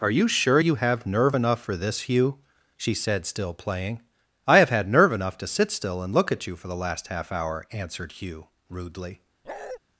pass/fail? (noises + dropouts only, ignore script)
fail